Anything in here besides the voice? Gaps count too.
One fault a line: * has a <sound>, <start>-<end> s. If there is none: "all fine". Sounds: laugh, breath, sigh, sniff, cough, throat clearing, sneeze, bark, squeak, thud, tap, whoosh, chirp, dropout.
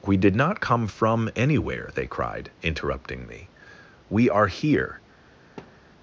* has a thud, 5.6-5.9 s